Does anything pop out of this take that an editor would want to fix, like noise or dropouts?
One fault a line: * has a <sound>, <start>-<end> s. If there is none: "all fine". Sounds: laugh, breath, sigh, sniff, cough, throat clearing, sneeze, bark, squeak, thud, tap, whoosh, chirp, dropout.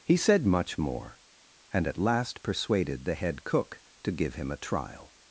all fine